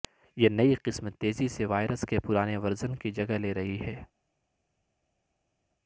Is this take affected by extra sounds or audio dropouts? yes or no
no